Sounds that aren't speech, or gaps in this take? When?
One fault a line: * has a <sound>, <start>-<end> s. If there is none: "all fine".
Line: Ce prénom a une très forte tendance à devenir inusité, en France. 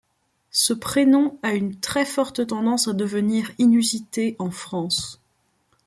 all fine